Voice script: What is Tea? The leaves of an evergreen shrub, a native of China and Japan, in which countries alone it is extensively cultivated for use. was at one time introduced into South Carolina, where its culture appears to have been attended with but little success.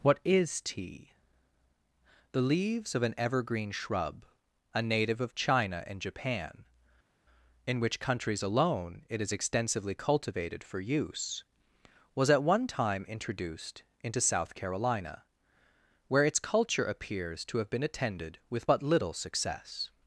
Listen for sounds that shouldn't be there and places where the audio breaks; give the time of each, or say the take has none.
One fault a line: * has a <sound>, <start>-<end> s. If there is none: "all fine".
all fine